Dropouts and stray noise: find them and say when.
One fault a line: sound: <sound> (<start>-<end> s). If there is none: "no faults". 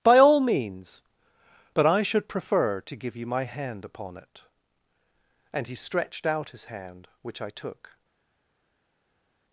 no faults